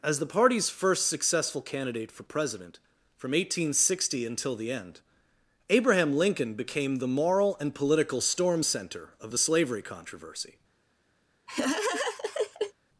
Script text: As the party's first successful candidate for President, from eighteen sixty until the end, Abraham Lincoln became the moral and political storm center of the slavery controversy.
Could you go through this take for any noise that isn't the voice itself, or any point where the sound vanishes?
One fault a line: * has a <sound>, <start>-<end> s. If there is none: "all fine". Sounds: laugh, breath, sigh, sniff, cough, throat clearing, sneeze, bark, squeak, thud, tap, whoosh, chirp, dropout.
* has a laugh, 11.5-12.7 s